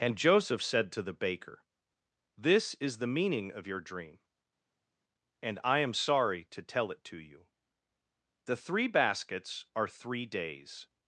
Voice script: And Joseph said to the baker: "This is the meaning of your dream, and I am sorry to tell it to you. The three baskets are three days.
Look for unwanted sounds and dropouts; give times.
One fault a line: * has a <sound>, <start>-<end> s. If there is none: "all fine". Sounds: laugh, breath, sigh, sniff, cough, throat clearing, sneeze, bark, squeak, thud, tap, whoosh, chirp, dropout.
all fine